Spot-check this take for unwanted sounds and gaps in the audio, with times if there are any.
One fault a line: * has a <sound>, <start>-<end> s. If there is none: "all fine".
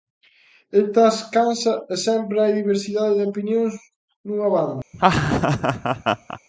* has a laugh, 4.9-6.4 s